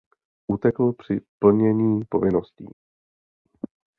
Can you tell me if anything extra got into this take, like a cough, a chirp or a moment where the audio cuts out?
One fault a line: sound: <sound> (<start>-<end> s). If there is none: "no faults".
no faults